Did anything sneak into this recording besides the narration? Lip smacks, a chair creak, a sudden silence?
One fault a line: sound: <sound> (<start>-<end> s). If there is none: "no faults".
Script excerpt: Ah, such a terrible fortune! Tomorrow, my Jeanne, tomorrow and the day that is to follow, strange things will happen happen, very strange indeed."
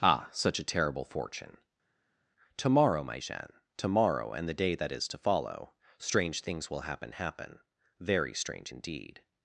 no faults